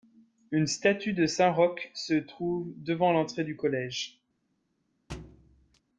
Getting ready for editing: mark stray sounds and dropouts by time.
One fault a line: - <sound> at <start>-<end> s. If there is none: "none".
- thud at 5.1-5.8 s